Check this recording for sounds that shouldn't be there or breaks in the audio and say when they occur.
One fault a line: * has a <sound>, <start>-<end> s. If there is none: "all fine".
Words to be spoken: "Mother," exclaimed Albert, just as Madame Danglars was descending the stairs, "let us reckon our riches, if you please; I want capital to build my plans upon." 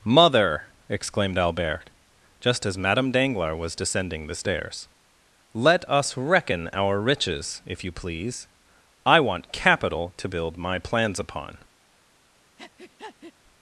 * has a breath, 12.6-13.3 s